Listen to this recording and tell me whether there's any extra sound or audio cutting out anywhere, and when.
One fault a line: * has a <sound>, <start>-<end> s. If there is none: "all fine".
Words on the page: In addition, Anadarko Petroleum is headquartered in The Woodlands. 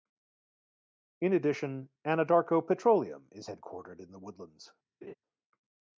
* has a laugh, 5.0-5.1 s